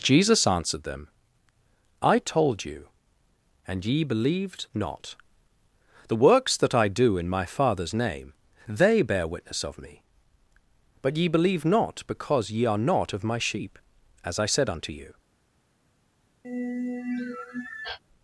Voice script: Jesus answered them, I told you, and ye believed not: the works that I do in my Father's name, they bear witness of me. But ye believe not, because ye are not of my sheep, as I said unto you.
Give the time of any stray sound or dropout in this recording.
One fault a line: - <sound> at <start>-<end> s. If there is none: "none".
- sigh at 16.4-18.0 s